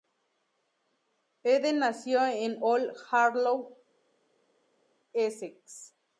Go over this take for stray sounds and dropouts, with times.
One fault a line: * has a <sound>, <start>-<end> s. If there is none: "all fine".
all fine